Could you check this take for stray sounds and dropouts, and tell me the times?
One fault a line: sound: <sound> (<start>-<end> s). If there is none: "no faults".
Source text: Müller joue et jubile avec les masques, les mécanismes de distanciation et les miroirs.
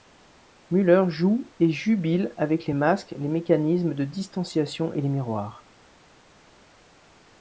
no faults